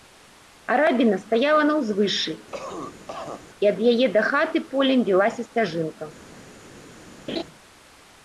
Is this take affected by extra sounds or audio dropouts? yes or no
yes